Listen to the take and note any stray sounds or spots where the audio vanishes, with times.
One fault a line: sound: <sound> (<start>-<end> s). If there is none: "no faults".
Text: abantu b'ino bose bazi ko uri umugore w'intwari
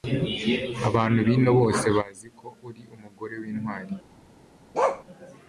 sound: bark (4.7-5.0 s)